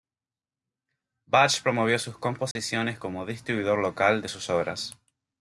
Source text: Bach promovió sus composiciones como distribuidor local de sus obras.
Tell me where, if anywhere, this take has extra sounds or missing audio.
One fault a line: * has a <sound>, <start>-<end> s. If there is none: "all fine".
* has a dropout, 2.5-2.6 s